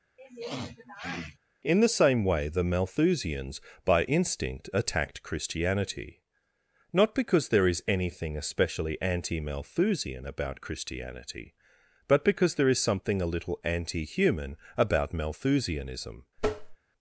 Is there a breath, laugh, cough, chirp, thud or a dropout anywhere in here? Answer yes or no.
yes